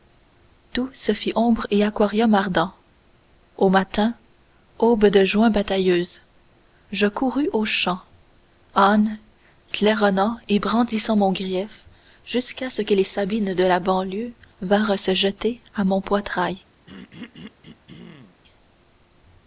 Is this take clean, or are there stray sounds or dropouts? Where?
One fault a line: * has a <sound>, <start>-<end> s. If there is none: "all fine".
* has a throat clearing, 16.9-18.4 s